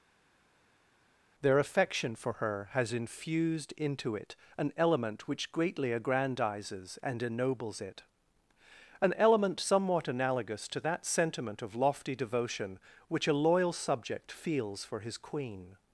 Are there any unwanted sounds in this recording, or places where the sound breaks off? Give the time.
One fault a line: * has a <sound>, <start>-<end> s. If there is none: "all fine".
all fine